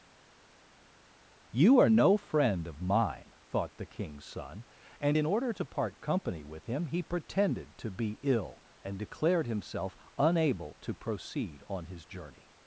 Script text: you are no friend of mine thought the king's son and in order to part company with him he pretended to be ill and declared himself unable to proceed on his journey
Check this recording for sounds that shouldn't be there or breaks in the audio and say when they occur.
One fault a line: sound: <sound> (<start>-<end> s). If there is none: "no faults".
no faults